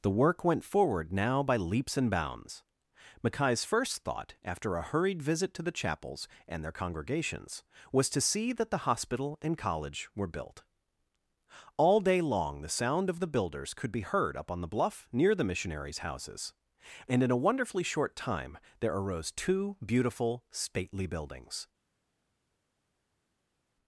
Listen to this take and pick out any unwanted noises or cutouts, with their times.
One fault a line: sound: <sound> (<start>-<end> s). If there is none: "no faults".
no faults